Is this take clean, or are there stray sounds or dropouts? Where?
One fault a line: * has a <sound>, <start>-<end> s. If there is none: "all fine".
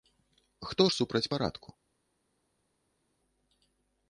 all fine